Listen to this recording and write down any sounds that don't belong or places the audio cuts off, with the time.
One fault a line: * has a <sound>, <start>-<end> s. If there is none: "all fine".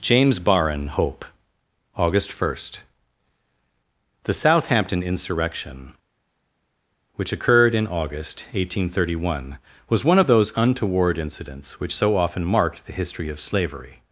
all fine